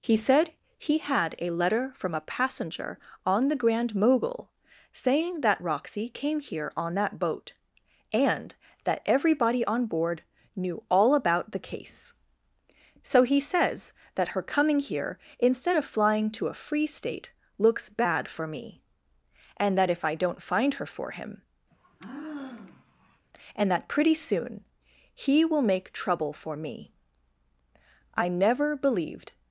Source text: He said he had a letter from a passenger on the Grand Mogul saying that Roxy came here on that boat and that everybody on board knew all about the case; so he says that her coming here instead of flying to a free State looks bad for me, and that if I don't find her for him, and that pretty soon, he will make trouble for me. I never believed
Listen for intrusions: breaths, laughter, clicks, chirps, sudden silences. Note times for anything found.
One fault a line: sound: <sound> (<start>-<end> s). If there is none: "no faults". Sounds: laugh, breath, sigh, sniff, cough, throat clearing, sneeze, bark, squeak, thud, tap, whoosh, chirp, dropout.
sound: sigh (21.7-23.3 s)